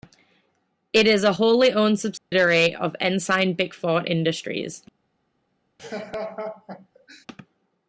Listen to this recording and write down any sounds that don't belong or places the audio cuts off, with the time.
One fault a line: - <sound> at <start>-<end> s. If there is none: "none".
- dropout at 2.2-2.3 s
- laugh at 5.8-7.3 s